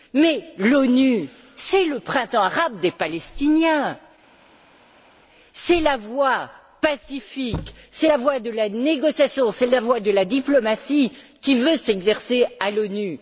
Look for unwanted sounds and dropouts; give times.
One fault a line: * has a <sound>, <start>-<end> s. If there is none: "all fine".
all fine